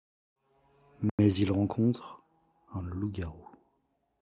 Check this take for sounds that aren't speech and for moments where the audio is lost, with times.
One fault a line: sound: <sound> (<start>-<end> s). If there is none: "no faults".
sound: dropout (1.1-1.2 s)